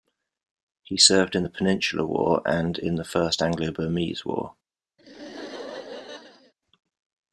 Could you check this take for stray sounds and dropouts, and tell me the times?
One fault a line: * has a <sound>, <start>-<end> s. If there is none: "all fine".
* has a laugh, 5.0-6.5 s